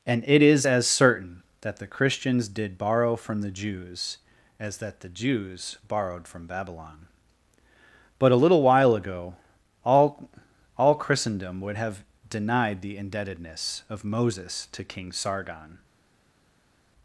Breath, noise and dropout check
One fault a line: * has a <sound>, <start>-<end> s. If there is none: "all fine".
all fine